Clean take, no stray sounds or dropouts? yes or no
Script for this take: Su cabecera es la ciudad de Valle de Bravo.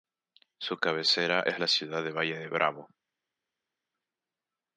yes